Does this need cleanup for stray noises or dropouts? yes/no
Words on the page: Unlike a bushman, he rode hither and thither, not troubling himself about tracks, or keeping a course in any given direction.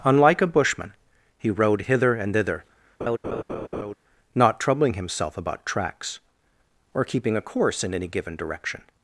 yes